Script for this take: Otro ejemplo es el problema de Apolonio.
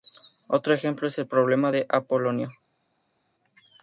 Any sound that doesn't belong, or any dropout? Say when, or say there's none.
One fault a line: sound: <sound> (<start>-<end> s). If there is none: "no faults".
no faults